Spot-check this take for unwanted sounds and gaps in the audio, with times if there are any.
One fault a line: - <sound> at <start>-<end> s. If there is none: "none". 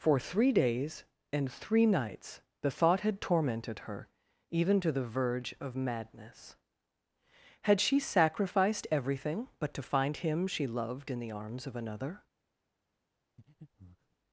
- breath at 13.4-14.2 s